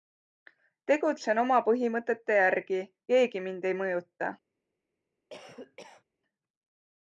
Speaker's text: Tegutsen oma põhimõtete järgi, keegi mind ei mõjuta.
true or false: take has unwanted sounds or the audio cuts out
true